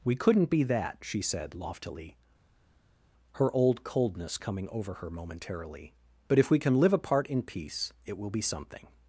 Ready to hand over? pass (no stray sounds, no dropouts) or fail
pass